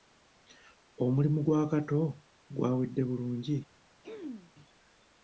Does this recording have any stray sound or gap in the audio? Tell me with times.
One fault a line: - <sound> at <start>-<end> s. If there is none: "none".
- throat clearing at 4.0-4.5 s